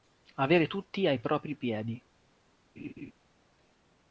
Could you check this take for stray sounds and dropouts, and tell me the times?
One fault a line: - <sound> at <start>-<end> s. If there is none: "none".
- laugh at 2.8-3.1 s